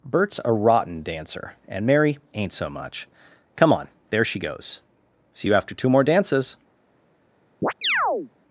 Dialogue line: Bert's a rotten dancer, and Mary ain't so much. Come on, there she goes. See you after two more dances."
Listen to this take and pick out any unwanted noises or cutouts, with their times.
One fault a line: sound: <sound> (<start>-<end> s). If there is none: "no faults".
sound: chirp (7.6-8.3 s)